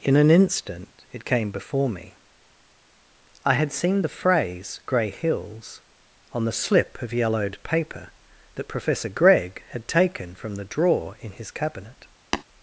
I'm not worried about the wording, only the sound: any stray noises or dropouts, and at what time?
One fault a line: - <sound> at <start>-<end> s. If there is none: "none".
- tap at 12.3-12.4 s